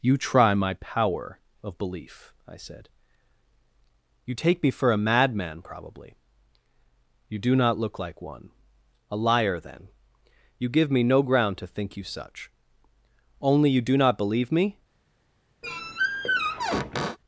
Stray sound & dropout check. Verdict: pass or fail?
fail